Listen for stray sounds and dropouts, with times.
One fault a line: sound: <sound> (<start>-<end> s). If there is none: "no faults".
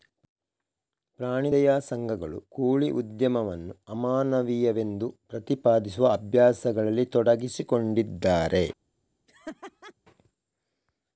sound: laugh (9.3-9.9 s)